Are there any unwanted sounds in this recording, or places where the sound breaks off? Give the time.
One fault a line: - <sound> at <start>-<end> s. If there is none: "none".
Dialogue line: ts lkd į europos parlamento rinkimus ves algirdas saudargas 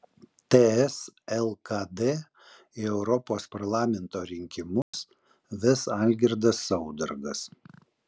- dropout at 4.8-4.9 s